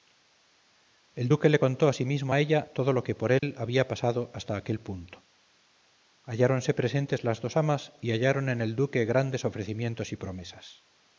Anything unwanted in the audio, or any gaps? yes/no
yes